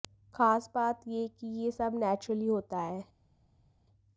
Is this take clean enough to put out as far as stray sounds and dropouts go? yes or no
yes